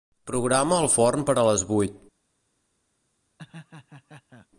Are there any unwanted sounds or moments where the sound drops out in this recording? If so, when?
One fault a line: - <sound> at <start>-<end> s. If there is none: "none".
- laugh at 3.4-4.5 s